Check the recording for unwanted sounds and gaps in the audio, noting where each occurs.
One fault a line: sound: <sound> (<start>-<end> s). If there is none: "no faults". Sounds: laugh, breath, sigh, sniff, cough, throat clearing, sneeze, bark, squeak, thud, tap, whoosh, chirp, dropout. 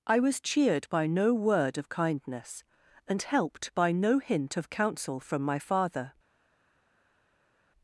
no faults